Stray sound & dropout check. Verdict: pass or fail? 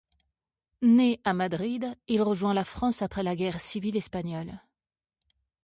pass